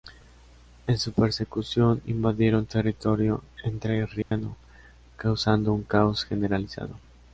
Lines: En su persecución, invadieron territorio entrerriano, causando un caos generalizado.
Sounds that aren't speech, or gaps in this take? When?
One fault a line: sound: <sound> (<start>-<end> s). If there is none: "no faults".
sound: dropout (4.2-4.3 s)